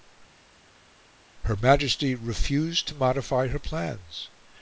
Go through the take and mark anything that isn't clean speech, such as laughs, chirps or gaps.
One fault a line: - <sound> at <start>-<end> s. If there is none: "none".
none